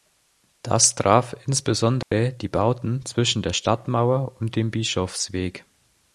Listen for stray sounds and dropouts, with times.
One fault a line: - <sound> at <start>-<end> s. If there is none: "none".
- dropout at 2.0-2.1 s